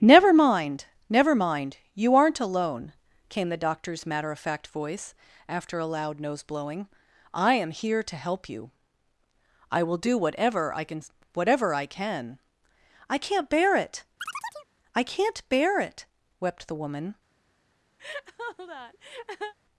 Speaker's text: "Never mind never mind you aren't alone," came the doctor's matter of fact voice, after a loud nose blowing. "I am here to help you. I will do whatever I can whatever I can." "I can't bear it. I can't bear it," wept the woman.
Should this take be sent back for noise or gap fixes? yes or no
yes